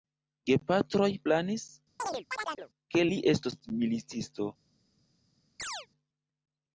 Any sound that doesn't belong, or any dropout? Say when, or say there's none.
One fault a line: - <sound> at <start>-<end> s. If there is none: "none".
- chirp at 2.0-2.7 s
- chirp at 5.6-5.9 s